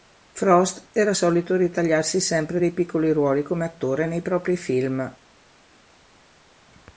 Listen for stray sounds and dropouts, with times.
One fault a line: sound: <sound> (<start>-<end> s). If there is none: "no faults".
no faults